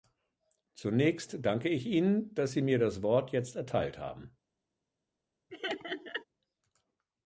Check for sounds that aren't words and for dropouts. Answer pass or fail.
fail